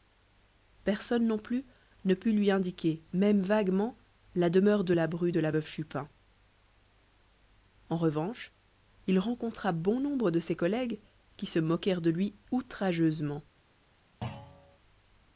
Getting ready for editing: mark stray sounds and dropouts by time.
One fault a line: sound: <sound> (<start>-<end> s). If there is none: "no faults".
sound: thud (14.2-14.8 s)